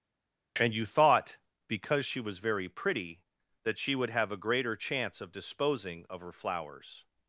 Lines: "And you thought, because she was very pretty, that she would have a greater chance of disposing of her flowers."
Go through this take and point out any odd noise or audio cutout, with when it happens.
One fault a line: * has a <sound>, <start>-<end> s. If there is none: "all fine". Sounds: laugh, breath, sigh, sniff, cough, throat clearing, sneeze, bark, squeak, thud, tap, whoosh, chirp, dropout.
all fine